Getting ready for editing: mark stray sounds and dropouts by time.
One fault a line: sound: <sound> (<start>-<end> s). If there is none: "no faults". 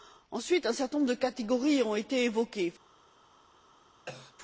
sound: cough (4.1-4.4 s)